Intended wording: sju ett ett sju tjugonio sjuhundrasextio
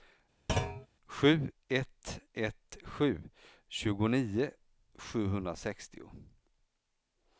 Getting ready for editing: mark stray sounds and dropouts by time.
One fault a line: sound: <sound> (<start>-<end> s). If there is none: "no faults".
sound: thud (0.5-0.9 s)